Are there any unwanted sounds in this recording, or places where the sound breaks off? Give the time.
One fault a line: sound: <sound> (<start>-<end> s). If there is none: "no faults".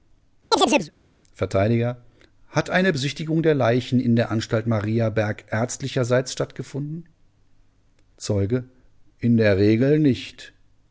sound: chirp (0.5-0.9 s)